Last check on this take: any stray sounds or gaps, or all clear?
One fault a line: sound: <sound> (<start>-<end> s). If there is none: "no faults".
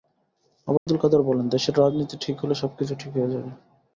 sound: dropout (0.8-0.9 s)